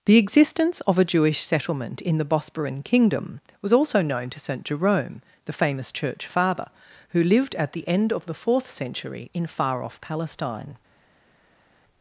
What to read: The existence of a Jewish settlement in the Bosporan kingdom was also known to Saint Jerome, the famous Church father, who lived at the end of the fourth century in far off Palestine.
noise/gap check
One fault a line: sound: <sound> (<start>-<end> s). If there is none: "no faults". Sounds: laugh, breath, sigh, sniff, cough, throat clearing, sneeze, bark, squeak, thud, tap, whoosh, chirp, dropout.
no faults